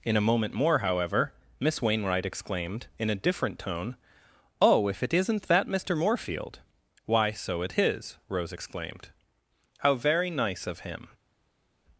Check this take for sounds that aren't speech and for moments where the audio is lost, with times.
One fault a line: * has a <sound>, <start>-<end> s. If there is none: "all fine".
all fine